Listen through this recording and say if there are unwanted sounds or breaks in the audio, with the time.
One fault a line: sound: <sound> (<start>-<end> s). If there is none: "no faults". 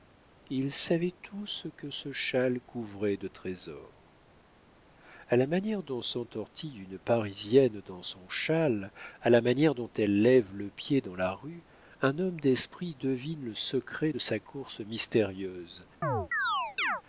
sound: chirp (16.0-17.0 s)